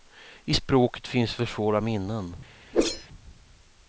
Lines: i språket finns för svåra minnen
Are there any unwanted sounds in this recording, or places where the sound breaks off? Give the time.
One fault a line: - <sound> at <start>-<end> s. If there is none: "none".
- whoosh at 2.7-3.1 s